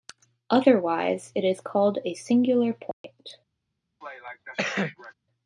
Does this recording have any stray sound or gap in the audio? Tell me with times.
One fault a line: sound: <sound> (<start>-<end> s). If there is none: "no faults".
sound: dropout (2.9-3.0 s)
sound: cough (4.0-5.1 s)